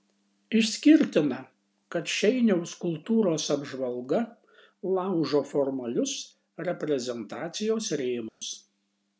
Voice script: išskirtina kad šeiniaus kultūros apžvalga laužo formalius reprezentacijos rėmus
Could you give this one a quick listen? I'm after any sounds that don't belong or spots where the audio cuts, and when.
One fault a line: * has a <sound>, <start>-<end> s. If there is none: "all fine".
* has a dropout, 8.3-8.4 s